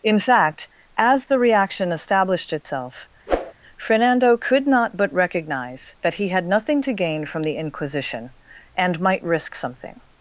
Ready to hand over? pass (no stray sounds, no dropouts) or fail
fail